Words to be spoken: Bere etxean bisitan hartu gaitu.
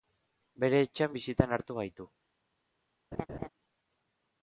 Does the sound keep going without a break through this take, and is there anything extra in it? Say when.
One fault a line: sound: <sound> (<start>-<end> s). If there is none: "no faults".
sound: laugh (3.1-3.5 s)